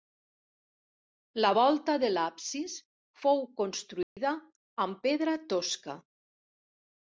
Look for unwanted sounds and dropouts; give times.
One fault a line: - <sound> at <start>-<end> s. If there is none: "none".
- dropout at 4.0-4.2 s